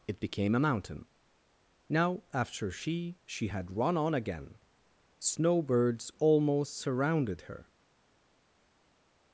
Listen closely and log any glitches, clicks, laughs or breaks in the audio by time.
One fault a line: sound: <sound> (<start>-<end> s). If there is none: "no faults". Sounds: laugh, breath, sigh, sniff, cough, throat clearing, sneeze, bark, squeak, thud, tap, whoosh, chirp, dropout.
no faults